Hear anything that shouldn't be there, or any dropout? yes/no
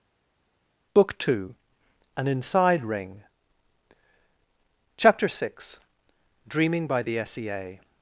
no